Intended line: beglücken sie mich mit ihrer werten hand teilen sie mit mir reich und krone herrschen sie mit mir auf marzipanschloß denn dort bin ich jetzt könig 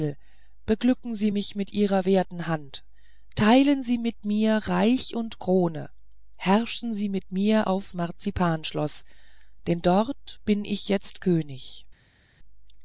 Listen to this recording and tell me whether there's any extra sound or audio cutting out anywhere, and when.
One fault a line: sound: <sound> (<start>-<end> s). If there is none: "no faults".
no faults